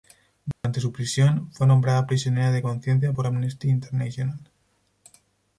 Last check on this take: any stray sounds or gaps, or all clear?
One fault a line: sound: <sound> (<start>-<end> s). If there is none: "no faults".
sound: dropout (0.5-0.6 s)